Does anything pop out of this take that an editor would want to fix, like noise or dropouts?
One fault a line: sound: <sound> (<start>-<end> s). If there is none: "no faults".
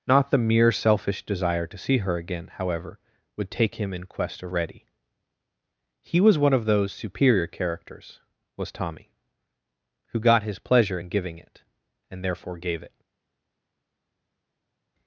no faults